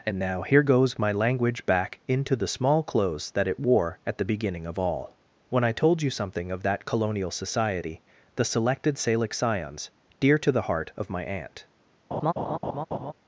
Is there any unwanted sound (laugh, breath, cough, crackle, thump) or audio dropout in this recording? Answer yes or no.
yes